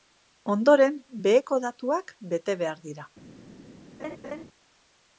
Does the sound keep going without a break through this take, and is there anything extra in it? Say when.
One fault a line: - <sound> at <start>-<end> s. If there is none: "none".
- laugh at 4.0-4.4 s